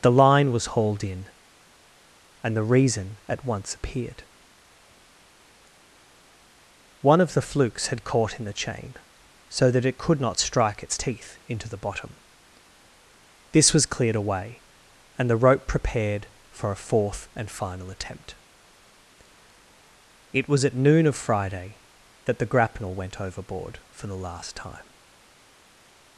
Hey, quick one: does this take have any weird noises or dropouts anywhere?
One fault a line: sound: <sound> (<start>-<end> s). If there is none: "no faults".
no faults